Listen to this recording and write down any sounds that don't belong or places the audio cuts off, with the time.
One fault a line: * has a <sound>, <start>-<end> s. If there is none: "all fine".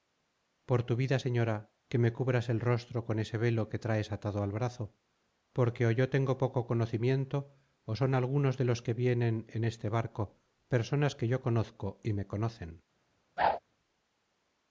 * has a whoosh, 13.4-13.6 s